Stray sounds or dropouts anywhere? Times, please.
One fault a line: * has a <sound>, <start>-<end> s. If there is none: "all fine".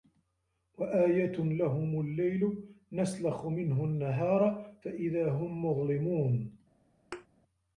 * has a thud, 7.1-7.3 s